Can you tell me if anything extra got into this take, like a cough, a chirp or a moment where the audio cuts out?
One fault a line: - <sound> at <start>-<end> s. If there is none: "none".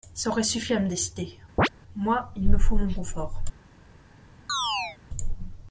- chirp at 1.6-1.7 s
- chirp at 4.5-5.0 s